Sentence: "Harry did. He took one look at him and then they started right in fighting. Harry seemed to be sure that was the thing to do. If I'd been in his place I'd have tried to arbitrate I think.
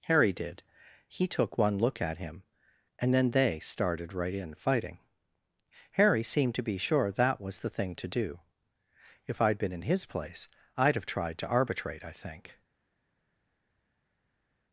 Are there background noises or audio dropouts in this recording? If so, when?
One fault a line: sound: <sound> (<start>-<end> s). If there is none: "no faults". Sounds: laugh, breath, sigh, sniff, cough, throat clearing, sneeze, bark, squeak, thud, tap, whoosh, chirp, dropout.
no faults